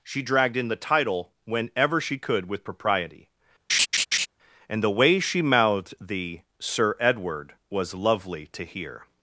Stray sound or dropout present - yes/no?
yes